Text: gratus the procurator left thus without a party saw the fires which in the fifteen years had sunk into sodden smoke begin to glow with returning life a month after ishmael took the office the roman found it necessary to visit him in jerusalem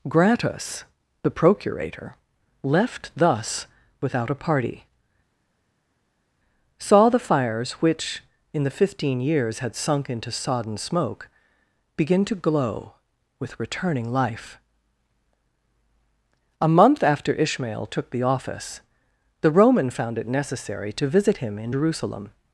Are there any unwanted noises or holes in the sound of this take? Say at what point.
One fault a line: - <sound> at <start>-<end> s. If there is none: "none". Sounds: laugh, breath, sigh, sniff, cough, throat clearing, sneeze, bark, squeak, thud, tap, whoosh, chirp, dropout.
none